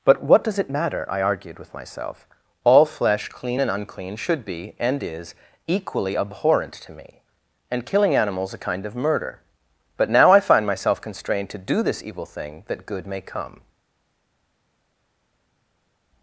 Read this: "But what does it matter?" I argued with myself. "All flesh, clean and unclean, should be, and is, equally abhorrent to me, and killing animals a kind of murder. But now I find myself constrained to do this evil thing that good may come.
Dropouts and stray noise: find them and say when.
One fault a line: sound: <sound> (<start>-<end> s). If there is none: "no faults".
no faults